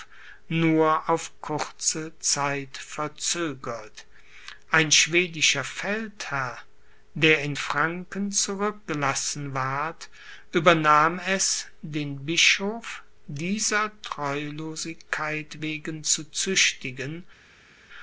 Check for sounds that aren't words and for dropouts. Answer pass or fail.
pass